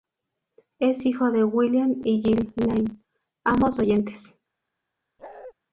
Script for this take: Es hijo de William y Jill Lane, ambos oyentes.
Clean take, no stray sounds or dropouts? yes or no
no